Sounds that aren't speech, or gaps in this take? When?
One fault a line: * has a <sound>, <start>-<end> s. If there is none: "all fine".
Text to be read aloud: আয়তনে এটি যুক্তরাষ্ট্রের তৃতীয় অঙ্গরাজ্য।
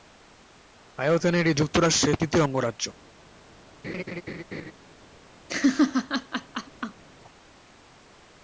* has a laugh, 3.8-4.7 s
* has a laugh, 5.5-7.0 s